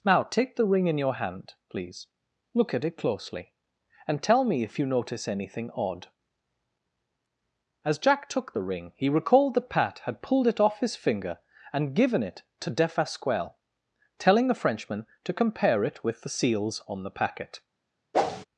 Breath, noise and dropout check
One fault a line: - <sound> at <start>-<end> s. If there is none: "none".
- whoosh at 18.1-18.4 s